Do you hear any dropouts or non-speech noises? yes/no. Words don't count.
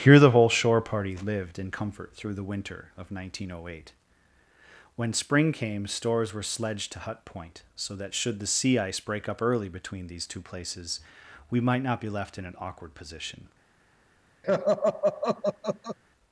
yes